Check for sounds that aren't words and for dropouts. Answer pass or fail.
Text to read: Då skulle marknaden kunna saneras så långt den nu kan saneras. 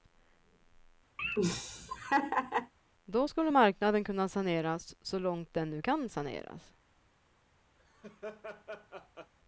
fail